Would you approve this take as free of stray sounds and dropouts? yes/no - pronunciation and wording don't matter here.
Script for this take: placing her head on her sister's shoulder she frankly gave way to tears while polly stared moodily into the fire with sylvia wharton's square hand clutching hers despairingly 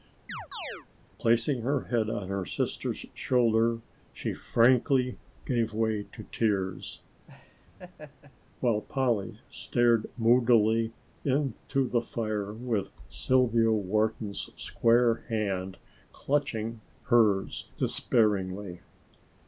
no